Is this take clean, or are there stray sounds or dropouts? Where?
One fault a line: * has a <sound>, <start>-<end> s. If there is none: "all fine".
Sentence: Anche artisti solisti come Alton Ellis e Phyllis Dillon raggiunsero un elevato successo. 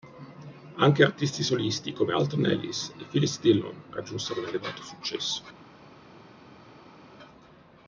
all fine